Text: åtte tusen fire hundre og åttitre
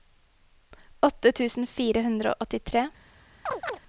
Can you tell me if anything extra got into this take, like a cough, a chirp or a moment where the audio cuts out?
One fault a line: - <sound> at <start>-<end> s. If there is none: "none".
- chirp at 3.5-3.8 s